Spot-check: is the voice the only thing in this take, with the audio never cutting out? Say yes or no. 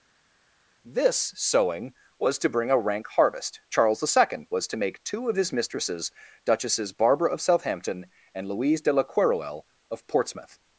yes